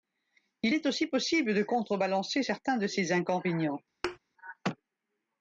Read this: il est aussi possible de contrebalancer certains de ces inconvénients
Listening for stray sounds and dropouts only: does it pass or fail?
fail